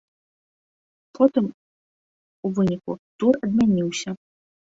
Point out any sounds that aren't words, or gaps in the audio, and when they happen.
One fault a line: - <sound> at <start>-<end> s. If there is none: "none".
none